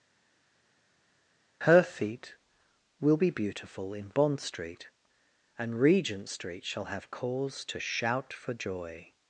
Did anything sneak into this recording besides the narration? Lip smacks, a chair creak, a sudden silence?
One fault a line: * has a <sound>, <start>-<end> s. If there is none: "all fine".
all fine